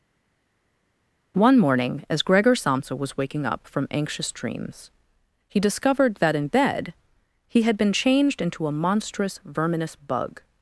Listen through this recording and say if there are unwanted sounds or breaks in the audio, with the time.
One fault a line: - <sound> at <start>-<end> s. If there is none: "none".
none